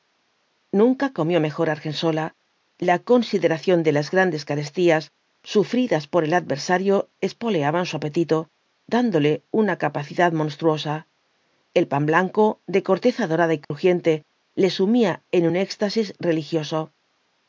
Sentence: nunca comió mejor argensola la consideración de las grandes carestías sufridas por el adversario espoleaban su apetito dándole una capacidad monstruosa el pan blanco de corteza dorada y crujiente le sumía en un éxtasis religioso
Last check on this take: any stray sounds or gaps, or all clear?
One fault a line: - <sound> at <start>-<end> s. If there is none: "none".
- dropout at 13.6-13.7 s